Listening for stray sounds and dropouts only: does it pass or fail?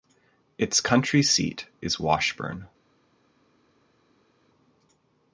pass